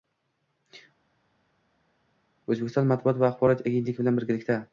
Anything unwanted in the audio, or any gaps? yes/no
no